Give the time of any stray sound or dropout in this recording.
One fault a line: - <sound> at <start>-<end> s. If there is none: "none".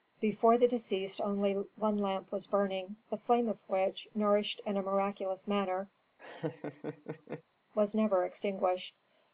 - laugh at 6.2-7.4 s